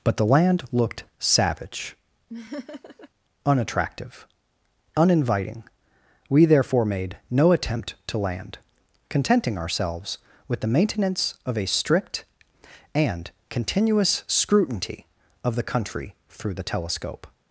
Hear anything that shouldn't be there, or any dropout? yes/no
yes